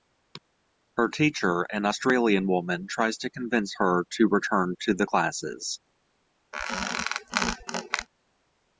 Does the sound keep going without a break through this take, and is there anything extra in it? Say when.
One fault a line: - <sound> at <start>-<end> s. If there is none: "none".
- squeak at 6.5-8.1 s